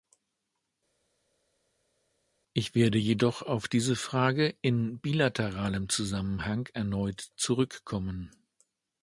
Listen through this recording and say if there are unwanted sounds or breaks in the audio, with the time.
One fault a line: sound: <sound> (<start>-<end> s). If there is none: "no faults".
no faults